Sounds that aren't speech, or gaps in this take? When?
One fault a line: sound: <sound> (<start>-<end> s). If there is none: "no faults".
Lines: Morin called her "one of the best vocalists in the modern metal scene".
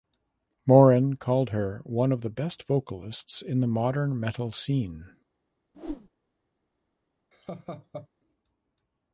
sound: whoosh (5.7-6.1 s)
sound: laugh (7.3-8.1 s)